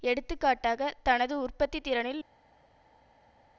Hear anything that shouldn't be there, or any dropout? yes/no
no